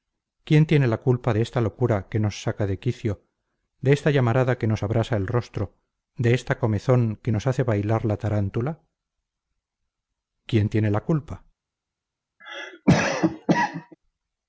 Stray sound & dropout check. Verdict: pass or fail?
fail